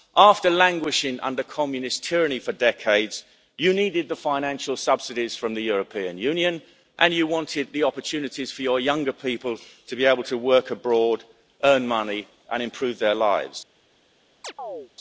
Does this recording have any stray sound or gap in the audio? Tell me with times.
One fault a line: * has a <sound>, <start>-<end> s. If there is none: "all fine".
* has a chirp, 14.4-14.9 s